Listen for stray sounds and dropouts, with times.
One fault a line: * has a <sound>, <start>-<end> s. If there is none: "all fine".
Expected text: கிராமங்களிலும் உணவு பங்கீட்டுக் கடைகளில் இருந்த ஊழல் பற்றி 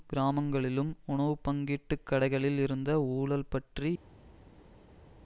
all fine